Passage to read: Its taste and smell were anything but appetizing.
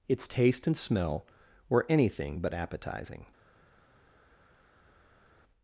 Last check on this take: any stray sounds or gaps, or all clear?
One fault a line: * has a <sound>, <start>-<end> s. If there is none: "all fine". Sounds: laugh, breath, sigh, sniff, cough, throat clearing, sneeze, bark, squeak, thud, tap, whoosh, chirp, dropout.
all fine